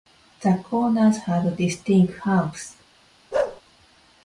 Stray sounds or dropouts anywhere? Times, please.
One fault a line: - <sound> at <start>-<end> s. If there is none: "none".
- bark at 3.3-3.6 s